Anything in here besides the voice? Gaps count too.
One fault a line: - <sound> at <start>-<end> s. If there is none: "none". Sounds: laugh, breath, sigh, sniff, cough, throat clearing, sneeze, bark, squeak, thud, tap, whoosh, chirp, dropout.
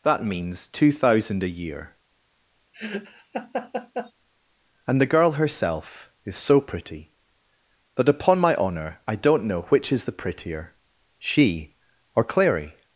- laugh at 2.7-4.1 s